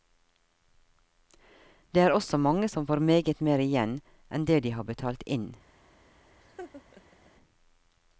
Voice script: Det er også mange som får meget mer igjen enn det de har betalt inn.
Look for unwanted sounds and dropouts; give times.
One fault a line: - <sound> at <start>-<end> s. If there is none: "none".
- laugh at 6.4-7.3 s